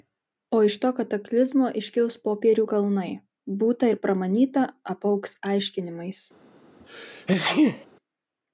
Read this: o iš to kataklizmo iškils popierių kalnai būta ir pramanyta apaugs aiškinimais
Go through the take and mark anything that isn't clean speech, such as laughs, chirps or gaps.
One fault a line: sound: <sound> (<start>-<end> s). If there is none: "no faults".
sound: sneeze (6.8-7.9 s)